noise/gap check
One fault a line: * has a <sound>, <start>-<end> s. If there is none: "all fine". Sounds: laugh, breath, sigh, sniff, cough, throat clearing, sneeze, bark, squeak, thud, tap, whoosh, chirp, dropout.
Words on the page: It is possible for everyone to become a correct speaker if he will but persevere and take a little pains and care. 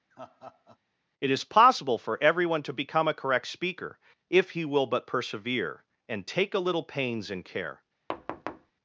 * has a laugh, 0.1-0.8 s
* has a thud, 8.1-8.7 s